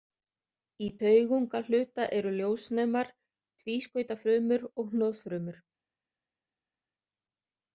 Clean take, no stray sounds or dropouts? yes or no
yes